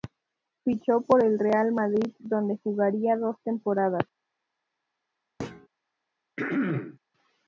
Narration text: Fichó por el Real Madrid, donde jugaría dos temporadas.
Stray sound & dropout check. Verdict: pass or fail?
fail